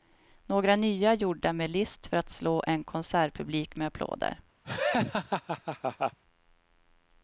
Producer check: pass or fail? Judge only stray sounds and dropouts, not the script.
fail